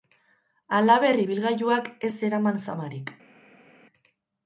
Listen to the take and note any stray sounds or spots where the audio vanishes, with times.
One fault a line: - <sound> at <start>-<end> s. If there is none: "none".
none